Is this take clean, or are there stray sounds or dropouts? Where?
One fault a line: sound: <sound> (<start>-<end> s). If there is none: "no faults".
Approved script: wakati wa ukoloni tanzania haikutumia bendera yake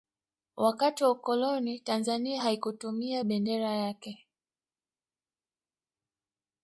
no faults